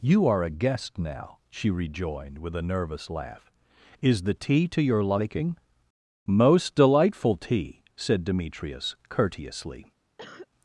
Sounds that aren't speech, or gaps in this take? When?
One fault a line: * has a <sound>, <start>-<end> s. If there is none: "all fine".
* has a cough, 10.2-10.5 s